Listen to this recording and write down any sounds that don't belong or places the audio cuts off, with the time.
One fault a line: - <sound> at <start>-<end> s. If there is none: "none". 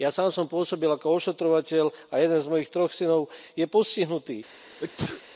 - sneeze at 4.8-5.2 s